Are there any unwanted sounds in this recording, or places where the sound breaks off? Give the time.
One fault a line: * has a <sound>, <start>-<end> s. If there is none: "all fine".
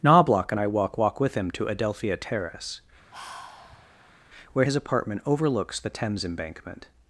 * has a sigh, 3.1-4.2 s